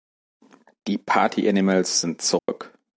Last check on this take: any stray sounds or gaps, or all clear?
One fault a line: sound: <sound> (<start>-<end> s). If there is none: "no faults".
sound: dropout (2.4-2.5 s)